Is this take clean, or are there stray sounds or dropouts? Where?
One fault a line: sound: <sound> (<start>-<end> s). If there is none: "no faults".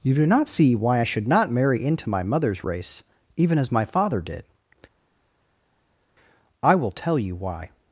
no faults